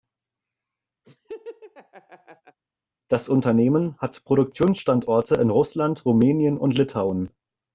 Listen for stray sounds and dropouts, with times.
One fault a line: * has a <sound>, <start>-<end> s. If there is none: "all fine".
* has a laugh, 1.0-2.6 s